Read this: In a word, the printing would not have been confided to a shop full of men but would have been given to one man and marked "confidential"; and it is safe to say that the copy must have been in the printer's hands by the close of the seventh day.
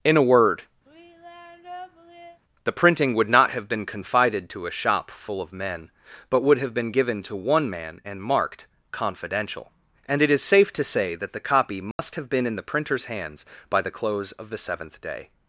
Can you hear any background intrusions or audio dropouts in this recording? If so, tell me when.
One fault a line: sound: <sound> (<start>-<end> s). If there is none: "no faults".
sound: sigh (0.8-2.4 s)
sound: dropout (11.9-12.0 s)